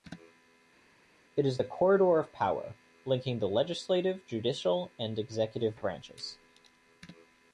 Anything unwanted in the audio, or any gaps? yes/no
no